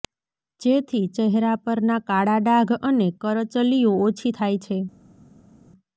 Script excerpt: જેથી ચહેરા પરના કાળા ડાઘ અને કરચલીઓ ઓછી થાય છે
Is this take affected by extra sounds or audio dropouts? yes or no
no